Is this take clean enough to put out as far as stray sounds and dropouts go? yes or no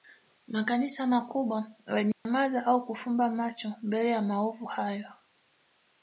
no